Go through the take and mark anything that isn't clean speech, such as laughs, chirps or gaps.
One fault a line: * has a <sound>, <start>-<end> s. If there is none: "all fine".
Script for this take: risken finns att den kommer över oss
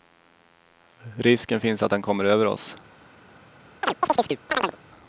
* has a chirp, 3.8-4.8 s